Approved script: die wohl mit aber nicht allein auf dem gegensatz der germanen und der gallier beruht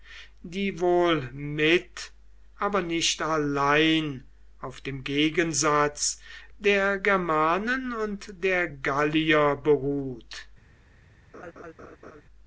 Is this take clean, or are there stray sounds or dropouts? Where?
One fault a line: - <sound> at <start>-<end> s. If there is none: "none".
- laugh at 11.3-12.2 s